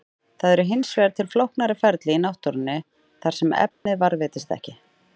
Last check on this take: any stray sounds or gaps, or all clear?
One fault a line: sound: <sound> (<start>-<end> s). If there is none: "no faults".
sound: dropout (3.7-3.9 s)